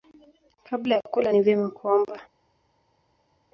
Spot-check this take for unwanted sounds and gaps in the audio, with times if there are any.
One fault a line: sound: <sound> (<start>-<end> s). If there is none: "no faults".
no faults